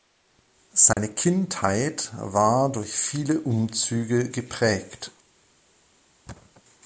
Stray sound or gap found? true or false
true